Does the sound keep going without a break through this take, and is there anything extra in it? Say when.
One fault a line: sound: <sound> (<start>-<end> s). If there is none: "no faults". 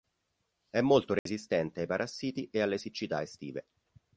sound: dropout (1.2-1.3 s)